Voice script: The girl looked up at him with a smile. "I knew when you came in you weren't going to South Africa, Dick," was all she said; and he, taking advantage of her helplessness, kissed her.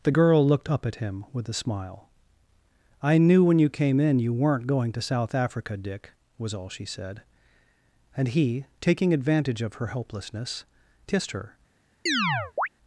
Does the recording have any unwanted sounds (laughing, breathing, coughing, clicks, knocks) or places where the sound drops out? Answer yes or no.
yes